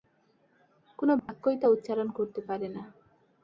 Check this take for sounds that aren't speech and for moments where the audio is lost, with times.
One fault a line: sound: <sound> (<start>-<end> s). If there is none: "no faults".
sound: dropout (1.2-1.3 s)